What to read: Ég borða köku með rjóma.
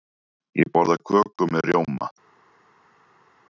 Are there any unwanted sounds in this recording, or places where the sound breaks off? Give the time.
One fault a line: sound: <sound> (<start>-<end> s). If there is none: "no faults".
no faults